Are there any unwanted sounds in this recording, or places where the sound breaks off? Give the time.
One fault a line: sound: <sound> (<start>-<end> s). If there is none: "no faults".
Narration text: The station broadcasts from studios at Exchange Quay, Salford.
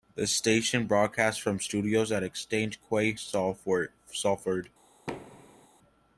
sound: thud (5.1-5.7 s)